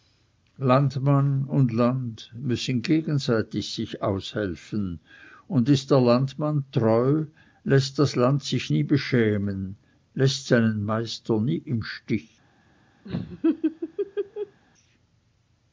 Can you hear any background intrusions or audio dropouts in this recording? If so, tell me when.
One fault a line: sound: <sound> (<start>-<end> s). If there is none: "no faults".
sound: laugh (13.0-14.6 s)